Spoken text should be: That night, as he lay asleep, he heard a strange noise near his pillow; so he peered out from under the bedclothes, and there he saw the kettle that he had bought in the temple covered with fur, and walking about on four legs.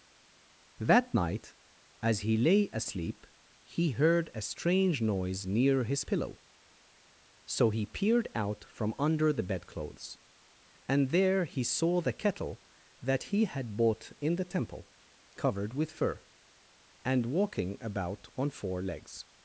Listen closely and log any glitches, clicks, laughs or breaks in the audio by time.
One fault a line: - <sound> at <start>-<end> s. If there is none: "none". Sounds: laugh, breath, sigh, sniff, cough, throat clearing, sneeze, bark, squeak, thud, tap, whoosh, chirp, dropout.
none